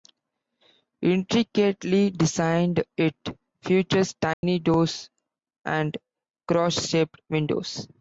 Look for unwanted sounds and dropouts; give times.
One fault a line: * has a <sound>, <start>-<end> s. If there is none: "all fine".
* has a dropout, 4.3-4.4 s